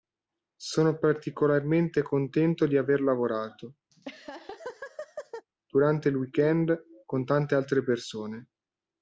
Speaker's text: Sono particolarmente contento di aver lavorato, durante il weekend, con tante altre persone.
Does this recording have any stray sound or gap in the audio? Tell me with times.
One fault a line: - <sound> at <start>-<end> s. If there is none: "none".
- laugh at 3.9-5.5 s